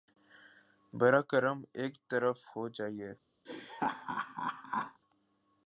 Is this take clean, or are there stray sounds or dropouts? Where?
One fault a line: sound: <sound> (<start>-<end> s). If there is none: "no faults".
sound: laugh (3.4-5.0 s)